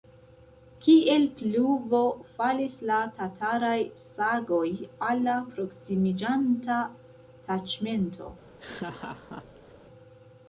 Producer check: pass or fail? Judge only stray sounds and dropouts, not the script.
fail